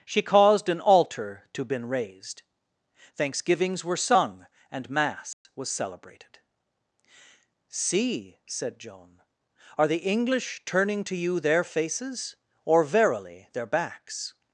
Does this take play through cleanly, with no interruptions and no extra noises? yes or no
no